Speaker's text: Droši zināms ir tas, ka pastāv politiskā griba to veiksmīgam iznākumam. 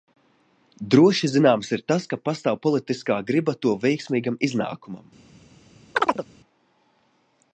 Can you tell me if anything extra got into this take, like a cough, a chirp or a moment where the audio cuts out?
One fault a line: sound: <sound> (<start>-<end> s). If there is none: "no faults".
sound: chirp (6.0-6.3 s)